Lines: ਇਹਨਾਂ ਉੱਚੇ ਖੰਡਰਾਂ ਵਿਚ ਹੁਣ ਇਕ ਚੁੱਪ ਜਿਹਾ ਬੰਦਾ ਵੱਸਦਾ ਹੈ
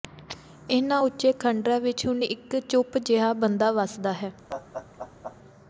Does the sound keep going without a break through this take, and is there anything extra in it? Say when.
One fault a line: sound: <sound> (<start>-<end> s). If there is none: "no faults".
sound: laugh (4.5-5.4 s)